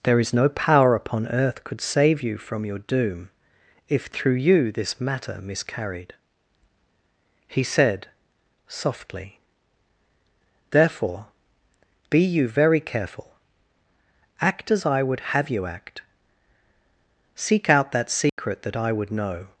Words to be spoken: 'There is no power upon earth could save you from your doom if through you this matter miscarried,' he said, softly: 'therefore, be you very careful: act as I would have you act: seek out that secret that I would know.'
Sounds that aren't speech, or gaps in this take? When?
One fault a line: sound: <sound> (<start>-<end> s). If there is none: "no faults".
sound: dropout (18.3-18.4 s)